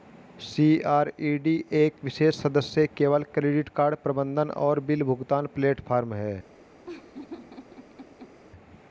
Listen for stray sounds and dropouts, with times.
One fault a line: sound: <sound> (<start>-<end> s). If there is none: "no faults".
sound: laugh (6.9-8.4 s)